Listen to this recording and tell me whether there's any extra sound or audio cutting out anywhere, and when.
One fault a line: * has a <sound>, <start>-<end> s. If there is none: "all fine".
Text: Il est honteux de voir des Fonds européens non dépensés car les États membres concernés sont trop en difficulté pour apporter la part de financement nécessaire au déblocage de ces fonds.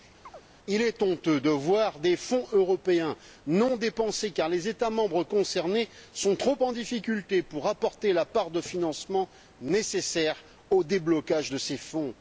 * has a chirp, 0.2-0.4 s